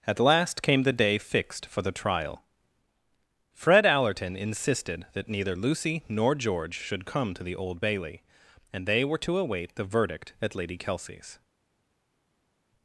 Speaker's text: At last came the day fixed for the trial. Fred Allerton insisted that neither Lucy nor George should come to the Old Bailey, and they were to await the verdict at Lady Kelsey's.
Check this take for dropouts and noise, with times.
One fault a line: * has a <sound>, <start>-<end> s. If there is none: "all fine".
all fine